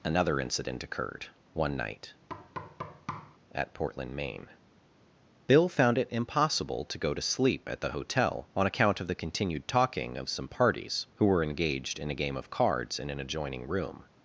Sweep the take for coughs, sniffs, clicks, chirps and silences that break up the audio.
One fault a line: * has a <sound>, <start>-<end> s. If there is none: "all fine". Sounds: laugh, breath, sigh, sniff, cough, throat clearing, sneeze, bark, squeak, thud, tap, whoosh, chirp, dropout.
* has a thud, 2.3-3.4 s